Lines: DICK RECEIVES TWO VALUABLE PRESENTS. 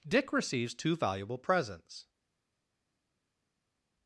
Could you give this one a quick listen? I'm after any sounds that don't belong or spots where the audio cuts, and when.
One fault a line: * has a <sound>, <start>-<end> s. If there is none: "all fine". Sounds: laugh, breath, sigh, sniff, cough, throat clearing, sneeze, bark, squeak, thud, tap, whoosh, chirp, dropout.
all fine